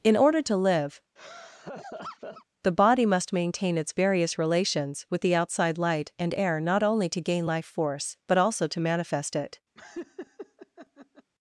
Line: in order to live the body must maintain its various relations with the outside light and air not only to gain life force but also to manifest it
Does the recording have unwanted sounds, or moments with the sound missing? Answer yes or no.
yes